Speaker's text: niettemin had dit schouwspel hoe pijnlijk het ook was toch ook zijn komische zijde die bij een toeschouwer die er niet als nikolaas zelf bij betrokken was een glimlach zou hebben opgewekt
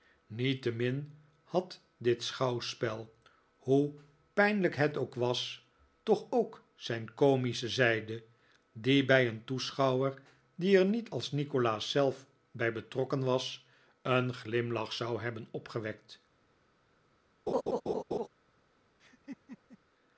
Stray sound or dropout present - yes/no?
yes